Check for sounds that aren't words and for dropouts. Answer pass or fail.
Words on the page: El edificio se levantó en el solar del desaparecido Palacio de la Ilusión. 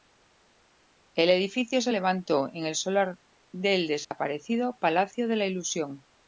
fail